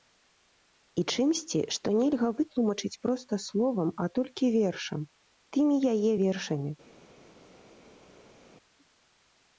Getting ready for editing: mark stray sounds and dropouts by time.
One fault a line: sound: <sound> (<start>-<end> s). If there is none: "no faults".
no faults